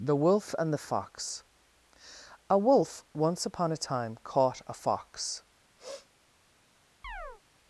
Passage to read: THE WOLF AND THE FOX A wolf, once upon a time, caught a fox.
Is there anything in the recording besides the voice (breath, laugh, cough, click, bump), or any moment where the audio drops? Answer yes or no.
yes